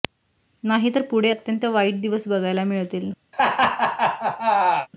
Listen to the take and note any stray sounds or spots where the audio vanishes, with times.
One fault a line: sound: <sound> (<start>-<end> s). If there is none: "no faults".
sound: laugh (3.3-4.9 s)